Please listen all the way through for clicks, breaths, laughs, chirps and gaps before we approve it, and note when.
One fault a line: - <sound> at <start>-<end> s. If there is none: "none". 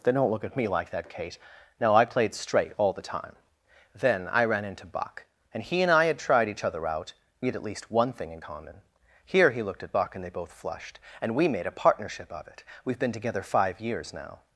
none